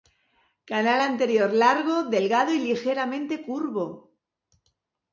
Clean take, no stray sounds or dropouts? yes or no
yes